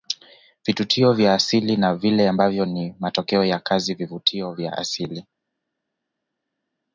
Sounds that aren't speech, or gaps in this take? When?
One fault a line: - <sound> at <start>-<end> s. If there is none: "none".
none